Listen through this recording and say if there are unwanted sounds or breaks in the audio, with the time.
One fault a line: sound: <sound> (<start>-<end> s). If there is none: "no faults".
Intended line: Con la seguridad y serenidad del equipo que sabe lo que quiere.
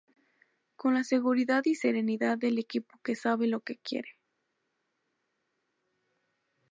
no faults